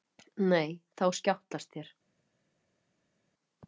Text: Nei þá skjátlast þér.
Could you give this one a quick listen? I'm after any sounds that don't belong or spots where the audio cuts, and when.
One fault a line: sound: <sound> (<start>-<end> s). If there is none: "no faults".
no faults